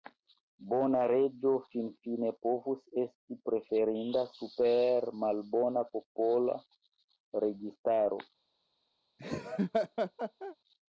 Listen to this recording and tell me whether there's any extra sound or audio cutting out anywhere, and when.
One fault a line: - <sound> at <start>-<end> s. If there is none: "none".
- laugh at 9.2-10.6 s